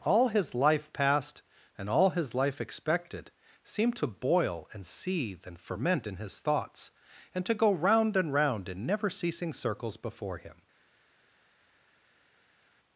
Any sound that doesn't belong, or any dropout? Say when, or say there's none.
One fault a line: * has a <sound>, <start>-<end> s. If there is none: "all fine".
all fine